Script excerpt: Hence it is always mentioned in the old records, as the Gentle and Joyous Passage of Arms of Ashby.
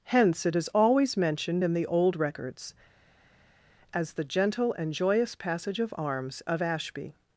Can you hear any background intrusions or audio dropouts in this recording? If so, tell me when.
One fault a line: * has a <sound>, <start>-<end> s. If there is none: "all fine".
all fine